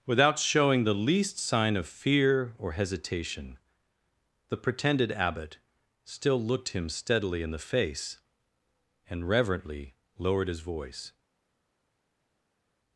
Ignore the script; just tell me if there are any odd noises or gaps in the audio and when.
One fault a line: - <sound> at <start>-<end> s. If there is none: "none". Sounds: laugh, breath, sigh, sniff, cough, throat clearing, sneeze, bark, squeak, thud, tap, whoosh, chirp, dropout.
none